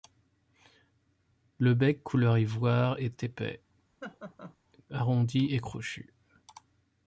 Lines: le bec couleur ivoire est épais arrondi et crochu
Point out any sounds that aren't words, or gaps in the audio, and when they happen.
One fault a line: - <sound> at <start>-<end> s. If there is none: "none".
- laugh at 4.0-4.6 s